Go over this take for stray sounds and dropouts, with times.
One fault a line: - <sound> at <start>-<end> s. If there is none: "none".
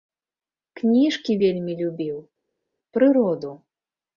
none